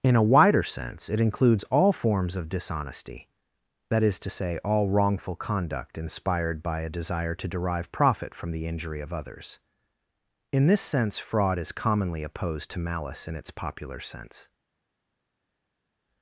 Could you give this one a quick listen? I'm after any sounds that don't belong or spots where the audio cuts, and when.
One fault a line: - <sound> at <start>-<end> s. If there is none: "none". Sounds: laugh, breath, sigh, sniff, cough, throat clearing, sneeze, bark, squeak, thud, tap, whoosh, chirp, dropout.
none